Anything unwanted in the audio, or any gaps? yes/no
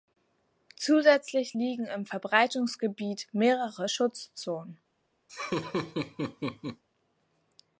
yes